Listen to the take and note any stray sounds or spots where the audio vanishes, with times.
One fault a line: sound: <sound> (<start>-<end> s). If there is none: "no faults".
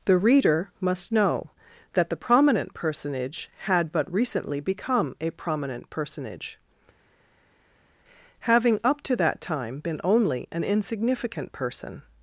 no faults